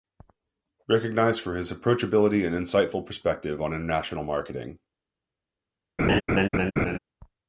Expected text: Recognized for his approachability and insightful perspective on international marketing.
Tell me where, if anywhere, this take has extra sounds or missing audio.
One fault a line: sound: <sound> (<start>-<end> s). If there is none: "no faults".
sound: laugh (6.0-7.0 s)